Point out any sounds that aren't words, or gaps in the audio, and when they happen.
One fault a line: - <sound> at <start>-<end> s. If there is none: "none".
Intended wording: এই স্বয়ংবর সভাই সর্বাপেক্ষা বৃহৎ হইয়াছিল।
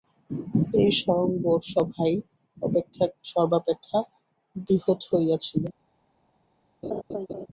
- laugh at 6.8-7.5 s